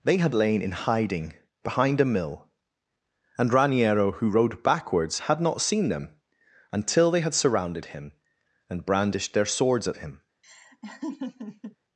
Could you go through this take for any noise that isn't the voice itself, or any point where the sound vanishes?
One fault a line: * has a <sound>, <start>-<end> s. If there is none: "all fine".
* has a laugh, 10.4-11.8 s